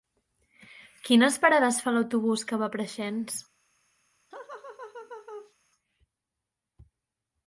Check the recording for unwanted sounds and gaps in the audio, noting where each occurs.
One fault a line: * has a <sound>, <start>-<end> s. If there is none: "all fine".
* has a laugh, 4.3-5.5 s